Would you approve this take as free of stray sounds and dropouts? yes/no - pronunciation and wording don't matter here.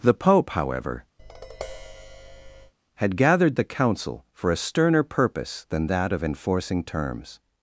no